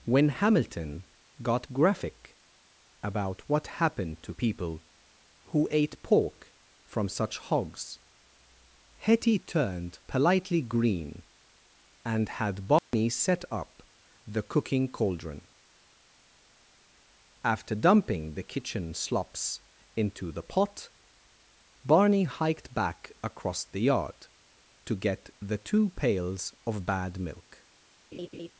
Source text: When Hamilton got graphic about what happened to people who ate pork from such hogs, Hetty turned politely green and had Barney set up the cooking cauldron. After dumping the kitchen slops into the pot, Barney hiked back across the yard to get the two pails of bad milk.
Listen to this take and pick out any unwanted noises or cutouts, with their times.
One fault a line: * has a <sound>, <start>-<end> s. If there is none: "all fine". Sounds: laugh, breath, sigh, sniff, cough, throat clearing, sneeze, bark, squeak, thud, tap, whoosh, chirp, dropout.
* has a dropout, 12.8-12.9 s
* has a laugh, 28.1-28.5 s